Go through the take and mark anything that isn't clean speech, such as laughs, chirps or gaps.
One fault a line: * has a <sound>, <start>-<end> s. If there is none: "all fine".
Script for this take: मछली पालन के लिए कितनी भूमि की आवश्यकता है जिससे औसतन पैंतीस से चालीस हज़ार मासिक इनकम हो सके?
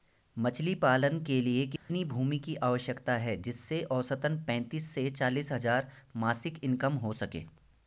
* has a dropout, 1.8-1.9 s